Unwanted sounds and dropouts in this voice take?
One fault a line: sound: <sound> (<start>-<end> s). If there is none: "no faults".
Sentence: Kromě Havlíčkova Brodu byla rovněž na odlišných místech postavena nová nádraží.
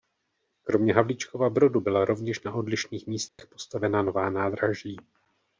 sound: dropout (3.3-3.4 s)